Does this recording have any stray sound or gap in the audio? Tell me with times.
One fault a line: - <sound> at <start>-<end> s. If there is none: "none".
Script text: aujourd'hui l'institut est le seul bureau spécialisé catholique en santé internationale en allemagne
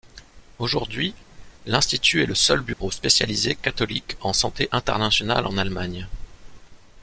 - dropout at 2.7-2.8 s